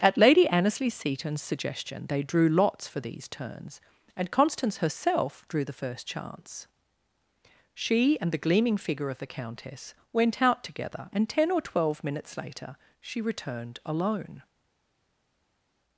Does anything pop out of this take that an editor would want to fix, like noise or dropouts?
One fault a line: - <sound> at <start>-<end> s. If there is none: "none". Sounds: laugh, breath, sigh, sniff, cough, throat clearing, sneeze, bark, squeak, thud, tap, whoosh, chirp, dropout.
none